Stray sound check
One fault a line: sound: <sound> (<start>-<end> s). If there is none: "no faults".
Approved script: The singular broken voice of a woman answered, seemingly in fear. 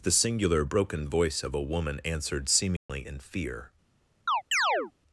sound: dropout (2.8-2.9 s)
sound: chirp (4.3-4.9 s)